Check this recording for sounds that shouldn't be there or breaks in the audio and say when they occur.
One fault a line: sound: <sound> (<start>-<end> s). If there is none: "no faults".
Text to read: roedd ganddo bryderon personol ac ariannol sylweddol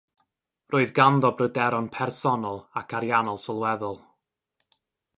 no faults